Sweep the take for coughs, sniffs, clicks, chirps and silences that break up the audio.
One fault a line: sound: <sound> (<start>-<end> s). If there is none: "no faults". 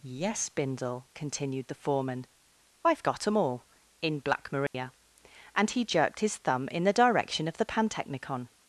sound: dropout (4.7-4.7 s)